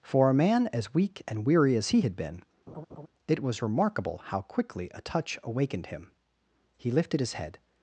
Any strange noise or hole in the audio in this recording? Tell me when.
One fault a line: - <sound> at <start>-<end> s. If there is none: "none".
- laugh at 2.7-3.1 s